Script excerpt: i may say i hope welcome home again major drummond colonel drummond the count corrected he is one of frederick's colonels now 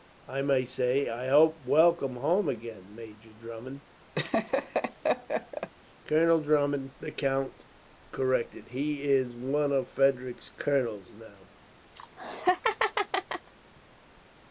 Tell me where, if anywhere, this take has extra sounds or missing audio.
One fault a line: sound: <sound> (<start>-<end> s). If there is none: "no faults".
sound: laugh (4.2-5.7 s)
sound: laugh (12.0-13.5 s)